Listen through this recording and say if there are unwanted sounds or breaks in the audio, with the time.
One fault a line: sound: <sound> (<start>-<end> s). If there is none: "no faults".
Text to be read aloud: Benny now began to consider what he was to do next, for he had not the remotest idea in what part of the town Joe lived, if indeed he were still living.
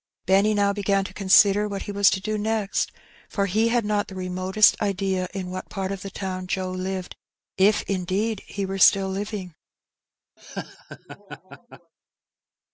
sound: laugh (10.4-11.9 s)